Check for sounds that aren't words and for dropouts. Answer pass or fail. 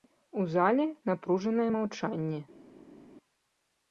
pass